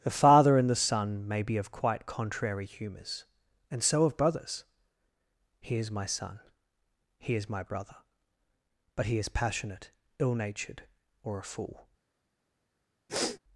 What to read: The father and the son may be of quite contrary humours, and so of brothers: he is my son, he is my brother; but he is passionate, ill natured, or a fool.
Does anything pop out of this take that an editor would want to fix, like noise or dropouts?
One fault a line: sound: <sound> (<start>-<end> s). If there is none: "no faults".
sound: sniff (13.1-13.4 s)